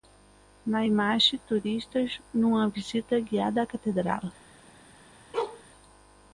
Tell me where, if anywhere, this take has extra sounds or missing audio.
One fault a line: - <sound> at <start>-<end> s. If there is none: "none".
- bark at 5.3-5.6 s